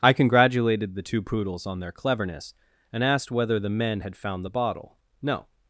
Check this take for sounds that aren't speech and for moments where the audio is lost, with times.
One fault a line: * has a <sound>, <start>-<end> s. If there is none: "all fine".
all fine